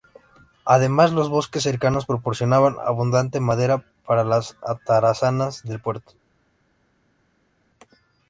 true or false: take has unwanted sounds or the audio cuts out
false